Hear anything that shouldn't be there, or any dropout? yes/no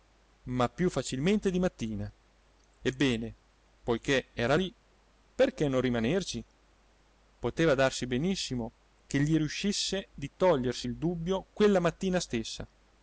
no